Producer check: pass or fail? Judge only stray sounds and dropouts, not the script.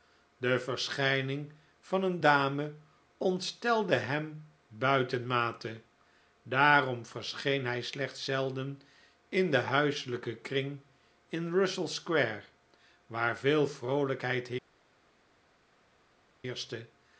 pass